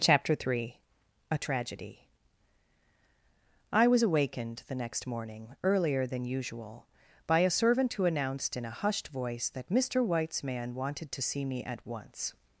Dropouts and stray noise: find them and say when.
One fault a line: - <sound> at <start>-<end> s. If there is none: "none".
none